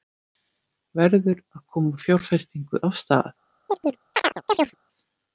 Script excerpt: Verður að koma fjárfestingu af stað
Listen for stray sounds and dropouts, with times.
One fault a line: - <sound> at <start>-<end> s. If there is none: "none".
- chirp at 3.7-4.7 s